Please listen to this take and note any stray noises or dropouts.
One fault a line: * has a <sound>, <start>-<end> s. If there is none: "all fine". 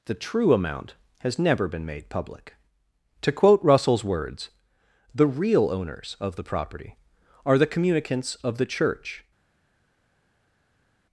all fine